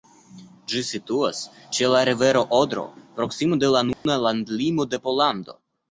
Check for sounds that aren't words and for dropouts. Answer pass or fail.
fail